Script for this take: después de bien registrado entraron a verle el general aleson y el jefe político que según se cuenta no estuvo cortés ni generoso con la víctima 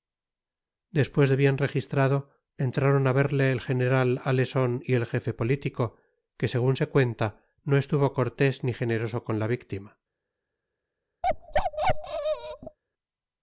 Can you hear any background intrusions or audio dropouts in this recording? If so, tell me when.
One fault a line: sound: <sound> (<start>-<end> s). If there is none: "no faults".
sound: bark (11.2-12.8 s)